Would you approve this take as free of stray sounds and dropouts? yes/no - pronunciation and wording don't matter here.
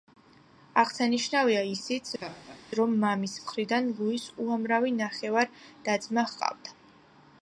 no